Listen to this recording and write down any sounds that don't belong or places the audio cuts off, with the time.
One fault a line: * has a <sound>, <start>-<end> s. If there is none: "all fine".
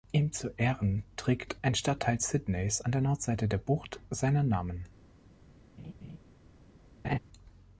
* has a laugh, 5.8-6.2 s
* has a laugh, 7.0-7.2 s